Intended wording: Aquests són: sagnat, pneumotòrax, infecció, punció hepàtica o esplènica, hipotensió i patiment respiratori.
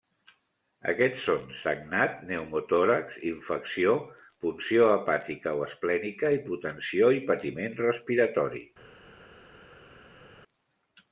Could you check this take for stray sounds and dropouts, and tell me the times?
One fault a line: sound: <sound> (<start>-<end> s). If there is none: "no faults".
no faults